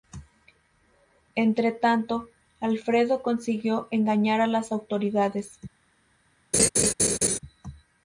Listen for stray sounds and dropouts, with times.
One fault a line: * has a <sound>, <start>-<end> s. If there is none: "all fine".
* has a laugh, 6.5-7.4 s